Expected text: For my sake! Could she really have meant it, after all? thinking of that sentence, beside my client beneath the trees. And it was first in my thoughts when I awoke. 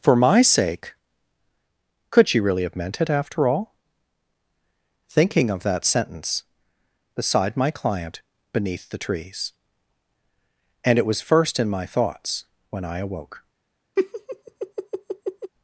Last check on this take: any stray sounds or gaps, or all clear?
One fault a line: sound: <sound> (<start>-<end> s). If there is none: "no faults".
sound: laugh (14.0-15.5 s)